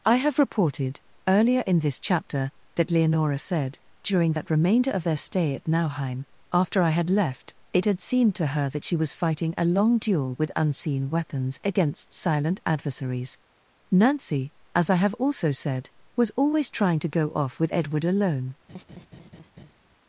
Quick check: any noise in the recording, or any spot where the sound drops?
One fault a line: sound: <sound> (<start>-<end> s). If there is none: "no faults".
sound: laugh (18.7-19.7 s)